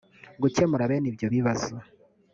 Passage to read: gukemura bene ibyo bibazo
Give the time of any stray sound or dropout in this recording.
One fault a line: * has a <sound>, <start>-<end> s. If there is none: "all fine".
all fine